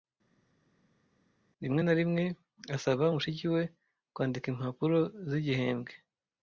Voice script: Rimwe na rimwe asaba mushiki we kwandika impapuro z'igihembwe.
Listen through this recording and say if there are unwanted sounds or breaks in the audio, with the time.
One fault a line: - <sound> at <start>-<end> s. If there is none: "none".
none